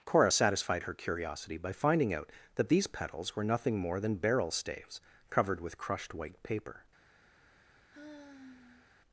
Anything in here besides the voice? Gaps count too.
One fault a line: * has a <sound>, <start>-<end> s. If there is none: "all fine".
* has a sigh, 7.9-8.9 s